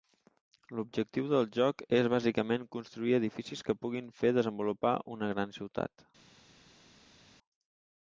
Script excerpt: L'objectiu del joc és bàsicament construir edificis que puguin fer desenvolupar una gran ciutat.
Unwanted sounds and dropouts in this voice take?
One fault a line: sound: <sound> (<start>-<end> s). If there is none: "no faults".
no faults